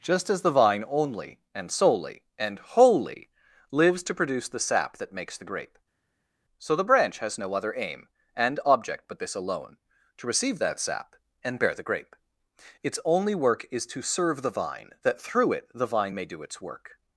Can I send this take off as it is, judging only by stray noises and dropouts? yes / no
yes